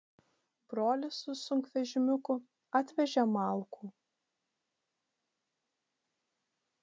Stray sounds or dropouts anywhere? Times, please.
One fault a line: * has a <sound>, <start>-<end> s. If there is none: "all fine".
all fine